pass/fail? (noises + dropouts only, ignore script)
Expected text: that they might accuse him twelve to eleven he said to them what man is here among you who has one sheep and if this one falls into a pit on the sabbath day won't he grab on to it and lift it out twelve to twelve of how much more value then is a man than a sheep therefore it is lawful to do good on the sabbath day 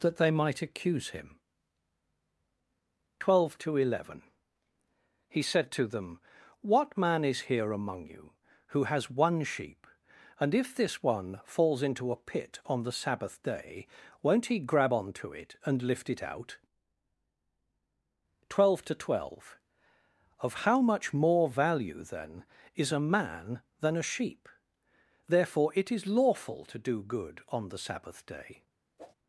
fail